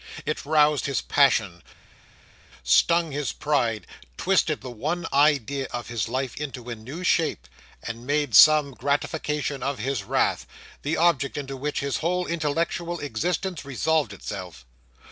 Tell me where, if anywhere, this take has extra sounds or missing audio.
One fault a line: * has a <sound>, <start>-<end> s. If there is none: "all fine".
all fine